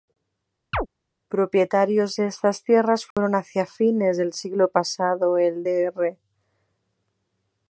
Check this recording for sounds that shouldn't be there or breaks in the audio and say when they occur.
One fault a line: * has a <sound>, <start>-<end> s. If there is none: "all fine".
* has a chirp, 0.7-0.9 s
* has a dropout, 3.1-3.2 s